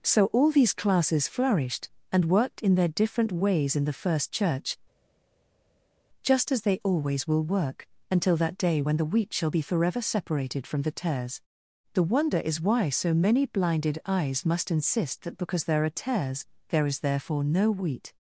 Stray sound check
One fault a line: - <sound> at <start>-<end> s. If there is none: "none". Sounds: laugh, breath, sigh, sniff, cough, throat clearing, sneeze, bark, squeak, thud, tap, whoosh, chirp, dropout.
none